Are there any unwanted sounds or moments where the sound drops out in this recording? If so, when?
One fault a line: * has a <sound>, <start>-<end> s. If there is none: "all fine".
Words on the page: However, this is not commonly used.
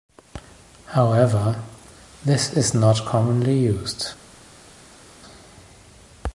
all fine